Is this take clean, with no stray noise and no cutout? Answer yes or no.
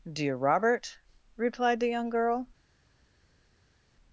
yes